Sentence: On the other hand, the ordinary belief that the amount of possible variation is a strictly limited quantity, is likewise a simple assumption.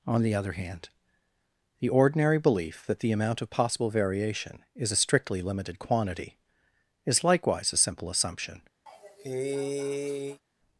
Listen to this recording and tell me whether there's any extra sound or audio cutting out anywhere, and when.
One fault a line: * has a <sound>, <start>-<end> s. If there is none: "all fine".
* has a cough, 8.9-10.4 s